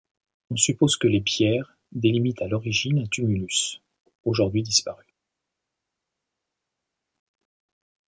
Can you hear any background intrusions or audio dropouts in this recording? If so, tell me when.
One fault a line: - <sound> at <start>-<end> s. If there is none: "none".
none